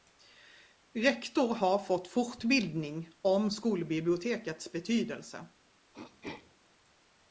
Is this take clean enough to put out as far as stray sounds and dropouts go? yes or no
no